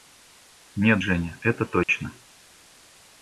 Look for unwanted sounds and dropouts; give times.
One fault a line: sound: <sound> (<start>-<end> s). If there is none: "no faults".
sound: dropout (1.8-1.9 s)